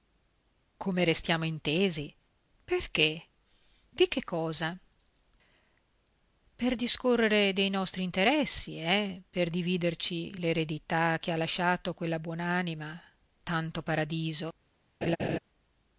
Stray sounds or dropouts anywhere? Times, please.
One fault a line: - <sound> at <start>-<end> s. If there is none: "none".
- laugh at 15.0-15.4 s